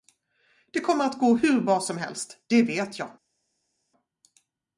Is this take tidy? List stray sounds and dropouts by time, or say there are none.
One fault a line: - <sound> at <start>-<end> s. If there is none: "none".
none